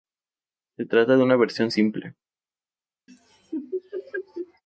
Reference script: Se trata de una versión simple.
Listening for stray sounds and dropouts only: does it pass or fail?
fail